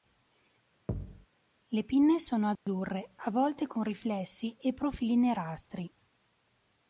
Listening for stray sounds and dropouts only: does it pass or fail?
fail